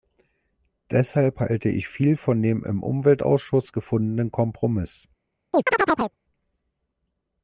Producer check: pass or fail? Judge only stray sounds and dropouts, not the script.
fail